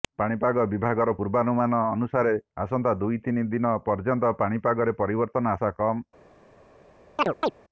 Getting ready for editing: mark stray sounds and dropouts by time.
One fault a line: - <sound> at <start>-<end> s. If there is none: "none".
- chirp at 7.2-7.5 s